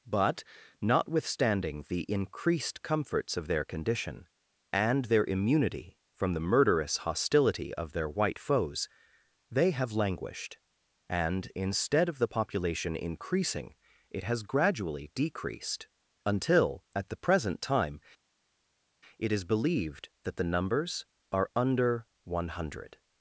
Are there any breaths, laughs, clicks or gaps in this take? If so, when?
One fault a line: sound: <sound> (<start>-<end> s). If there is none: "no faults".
no faults